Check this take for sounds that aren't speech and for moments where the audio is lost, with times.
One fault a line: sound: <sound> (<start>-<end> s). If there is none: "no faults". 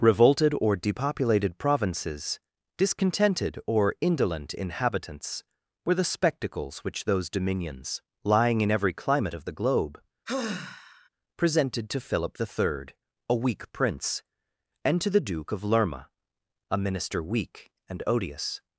sound: sigh (10.3-11.1 s)